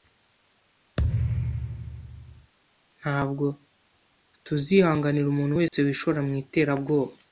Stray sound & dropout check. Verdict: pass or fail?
fail